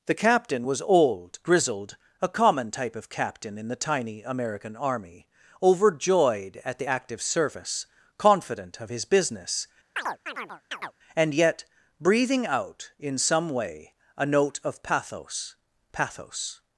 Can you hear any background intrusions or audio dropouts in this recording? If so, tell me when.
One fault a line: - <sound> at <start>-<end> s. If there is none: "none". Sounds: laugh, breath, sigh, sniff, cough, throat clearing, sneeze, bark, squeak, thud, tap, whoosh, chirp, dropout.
- chirp at 10.0-10.9 s